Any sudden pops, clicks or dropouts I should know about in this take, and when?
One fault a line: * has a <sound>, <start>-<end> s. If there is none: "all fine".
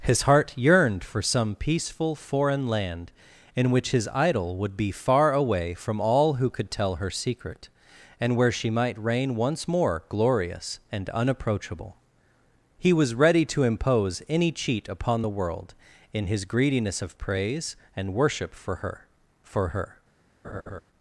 * has a laugh, 20.4-20.8 s